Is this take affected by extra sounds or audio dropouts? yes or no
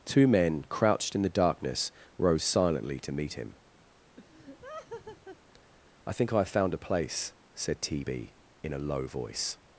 yes